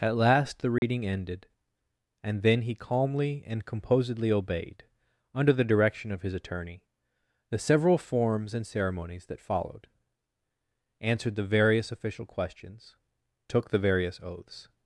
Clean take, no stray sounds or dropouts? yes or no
no